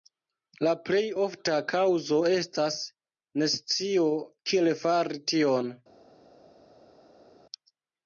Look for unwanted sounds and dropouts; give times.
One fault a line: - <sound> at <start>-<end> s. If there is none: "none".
none